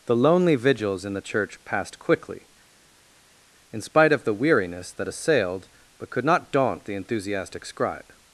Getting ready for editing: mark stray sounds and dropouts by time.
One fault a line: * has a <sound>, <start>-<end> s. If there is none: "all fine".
all fine